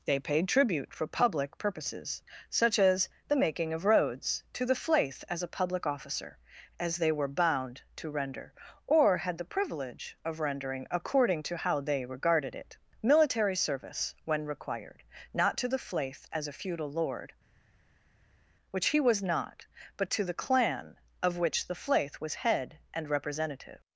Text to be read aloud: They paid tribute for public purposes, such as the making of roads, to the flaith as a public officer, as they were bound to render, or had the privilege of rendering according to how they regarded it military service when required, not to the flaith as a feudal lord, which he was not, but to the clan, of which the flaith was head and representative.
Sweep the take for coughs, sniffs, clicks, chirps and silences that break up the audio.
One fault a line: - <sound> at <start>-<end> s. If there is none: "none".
none